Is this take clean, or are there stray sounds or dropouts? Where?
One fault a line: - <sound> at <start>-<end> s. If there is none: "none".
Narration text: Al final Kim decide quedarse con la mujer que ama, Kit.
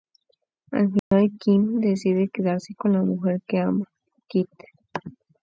- dropout at 1.0-1.1 s